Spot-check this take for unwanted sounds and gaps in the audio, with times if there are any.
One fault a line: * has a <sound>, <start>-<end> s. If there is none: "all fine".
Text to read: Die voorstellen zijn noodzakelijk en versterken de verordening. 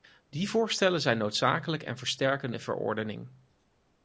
all fine